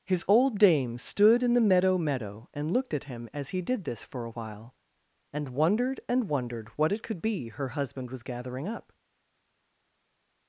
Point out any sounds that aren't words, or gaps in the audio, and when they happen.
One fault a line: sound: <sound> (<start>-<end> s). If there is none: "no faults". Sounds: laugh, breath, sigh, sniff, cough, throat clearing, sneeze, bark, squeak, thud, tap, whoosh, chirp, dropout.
no faults